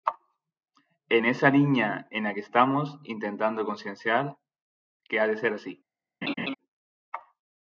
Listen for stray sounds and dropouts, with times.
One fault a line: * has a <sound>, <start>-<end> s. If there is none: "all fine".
* has a laugh, 6.2-6.5 s